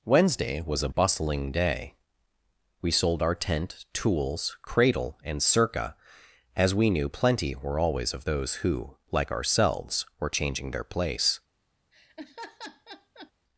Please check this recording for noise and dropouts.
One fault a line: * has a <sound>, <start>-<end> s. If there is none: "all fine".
* has a laugh, 11.9-13.3 s